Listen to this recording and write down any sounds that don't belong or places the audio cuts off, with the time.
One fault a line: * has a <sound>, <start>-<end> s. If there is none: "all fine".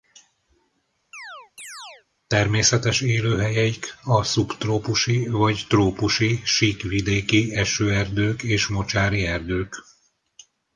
* has a chirp, 1.1-2.1 s